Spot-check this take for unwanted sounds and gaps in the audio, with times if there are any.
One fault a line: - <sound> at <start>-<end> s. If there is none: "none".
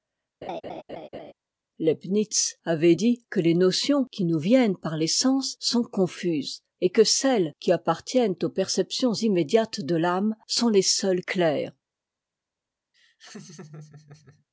- laugh at 0.4-1.3 s
- laugh at 12.9-14.5 s